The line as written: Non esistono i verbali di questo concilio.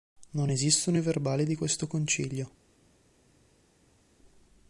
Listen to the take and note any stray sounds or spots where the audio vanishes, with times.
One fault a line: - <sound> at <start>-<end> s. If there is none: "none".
none